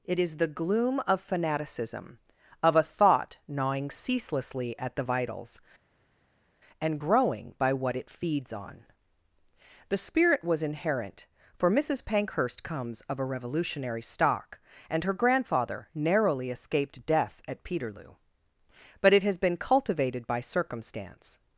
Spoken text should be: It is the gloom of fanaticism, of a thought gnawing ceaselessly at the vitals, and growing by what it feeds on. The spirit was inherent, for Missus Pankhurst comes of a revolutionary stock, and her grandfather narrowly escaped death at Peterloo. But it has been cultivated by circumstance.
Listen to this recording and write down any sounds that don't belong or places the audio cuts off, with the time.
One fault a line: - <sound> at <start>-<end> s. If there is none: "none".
none